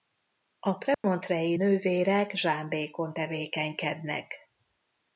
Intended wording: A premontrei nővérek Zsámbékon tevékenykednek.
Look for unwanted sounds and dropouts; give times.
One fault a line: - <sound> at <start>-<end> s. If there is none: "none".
- dropout at 0.9-1.0 s